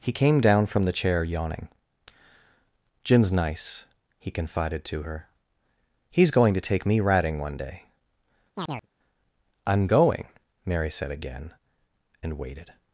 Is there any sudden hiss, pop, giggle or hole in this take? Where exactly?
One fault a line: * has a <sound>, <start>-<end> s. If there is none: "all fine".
* has a chirp, 8.6-8.9 s